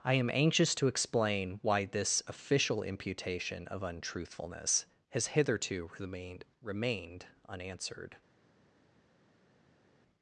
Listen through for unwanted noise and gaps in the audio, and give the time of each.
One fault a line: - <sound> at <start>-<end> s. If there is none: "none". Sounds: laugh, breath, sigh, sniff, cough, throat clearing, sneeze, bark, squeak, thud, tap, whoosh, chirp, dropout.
none